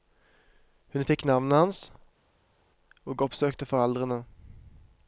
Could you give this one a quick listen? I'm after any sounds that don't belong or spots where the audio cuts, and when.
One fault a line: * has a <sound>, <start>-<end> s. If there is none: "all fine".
all fine